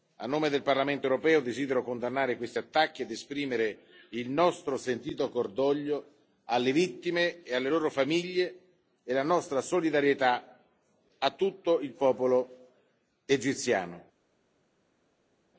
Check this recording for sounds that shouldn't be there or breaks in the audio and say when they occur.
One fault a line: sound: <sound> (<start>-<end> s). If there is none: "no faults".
no faults